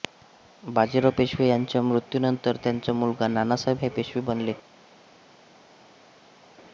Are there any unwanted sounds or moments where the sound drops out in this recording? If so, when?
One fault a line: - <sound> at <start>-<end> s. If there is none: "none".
none